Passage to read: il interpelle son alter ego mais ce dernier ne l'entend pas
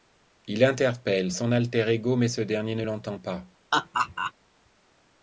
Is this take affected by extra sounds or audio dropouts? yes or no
yes